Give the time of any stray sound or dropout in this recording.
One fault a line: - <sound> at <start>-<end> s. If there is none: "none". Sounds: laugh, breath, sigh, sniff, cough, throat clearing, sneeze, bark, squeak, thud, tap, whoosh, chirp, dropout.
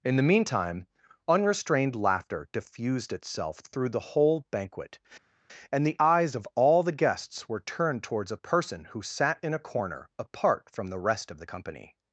none